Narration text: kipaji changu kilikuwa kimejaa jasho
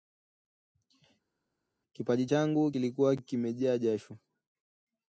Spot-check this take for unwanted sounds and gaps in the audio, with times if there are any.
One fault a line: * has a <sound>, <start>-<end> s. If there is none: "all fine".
all fine